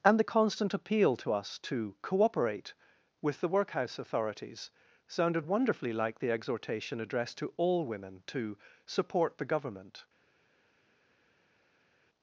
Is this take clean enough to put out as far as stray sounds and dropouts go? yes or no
yes